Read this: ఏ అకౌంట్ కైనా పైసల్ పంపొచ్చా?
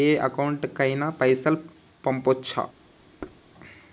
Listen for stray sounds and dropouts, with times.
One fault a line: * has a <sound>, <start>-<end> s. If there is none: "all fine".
* has a thud, 3.2-3.4 s